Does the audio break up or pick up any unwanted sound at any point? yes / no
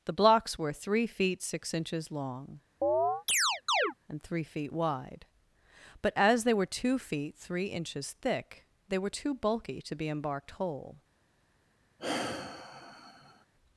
yes